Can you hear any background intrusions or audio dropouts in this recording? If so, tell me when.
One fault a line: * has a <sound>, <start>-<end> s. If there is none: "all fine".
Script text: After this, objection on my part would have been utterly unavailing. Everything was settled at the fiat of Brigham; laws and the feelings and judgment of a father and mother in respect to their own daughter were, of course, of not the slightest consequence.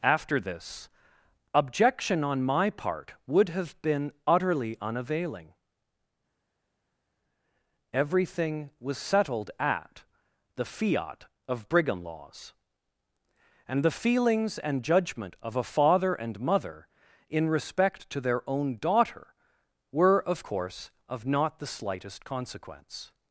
all fine